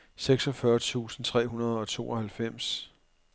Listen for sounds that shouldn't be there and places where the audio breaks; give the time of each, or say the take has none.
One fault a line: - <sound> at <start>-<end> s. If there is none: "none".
none